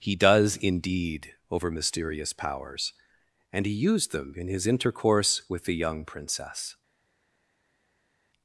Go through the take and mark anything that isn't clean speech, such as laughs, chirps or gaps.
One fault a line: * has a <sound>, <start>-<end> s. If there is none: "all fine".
all fine